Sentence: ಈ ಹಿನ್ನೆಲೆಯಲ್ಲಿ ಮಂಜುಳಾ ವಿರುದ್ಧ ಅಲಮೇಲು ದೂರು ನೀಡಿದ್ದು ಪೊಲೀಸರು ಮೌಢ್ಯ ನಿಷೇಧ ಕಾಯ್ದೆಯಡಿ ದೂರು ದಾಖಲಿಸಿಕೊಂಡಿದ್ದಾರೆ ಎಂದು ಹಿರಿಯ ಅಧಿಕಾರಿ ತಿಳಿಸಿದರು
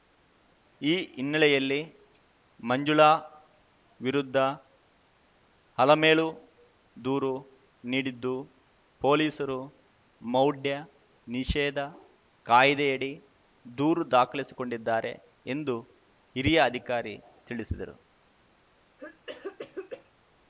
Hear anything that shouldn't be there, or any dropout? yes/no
yes